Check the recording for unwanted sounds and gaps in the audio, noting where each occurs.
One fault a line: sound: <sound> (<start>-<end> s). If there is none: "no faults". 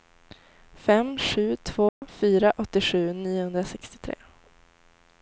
sound: dropout (1.9-2.0 s)